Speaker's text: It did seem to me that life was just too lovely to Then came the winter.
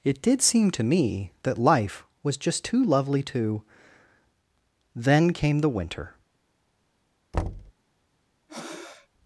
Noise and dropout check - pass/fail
fail